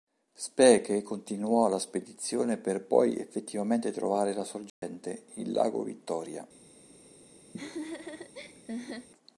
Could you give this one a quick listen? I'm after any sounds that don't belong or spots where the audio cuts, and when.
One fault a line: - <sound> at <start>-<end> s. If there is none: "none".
- dropout at 4.7-4.8 s
- laugh at 7.5-9.1 s